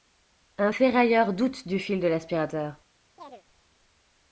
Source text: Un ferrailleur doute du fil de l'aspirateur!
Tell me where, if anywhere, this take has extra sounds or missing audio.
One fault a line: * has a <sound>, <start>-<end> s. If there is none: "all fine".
* has a chirp, 3.2-3.4 s